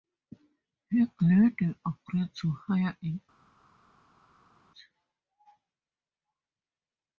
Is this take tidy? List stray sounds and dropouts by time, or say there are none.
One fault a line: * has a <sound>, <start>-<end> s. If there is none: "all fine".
all fine